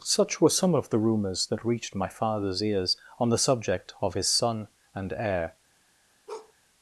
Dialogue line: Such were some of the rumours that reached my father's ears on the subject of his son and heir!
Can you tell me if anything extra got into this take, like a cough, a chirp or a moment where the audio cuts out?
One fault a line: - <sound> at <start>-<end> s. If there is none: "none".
- bark at 6.3-6.5 s